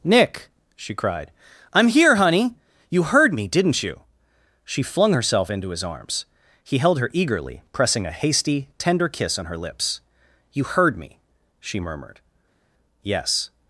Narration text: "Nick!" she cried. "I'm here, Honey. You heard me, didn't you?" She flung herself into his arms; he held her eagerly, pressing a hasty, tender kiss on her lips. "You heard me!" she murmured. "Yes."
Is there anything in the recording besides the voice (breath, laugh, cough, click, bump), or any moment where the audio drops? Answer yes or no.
no